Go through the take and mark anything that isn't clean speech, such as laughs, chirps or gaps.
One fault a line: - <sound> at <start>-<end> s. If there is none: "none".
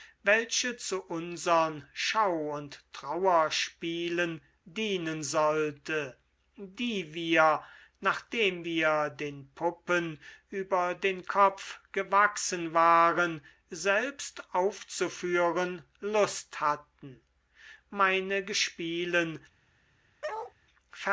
- bark at 20.2-20.5 s